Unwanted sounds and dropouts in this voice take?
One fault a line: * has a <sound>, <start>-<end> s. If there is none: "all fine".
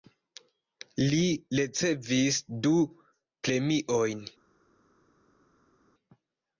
all fine